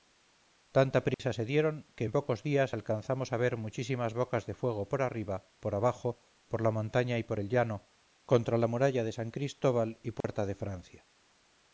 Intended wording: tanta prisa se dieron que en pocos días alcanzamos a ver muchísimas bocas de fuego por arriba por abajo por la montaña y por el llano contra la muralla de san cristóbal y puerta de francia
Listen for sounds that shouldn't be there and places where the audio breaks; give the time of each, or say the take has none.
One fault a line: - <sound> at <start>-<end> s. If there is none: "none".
- dropout at 1.1-1.2 s
- dropout at 10.2-10.2 s